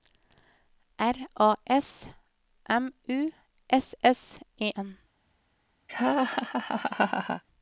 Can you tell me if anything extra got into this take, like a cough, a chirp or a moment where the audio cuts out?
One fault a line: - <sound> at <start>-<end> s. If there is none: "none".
- laugh at 5.9-7.4 s